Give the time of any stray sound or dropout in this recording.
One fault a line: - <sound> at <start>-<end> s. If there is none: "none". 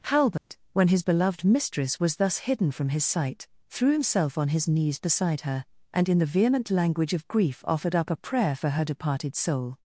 - dropout at 0.4-0.5 s